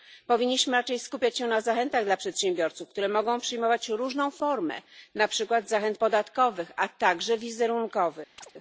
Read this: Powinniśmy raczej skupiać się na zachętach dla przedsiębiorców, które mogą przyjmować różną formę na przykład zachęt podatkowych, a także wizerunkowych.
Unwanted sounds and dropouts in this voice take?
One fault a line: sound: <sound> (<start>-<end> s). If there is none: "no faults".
sound: chirp (8.4-8.5 s)